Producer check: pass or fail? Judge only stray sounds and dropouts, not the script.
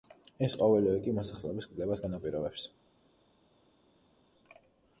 pass